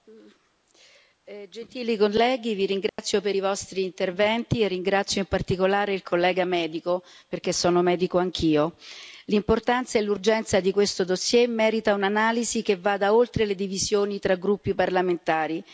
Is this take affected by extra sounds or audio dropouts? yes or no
yes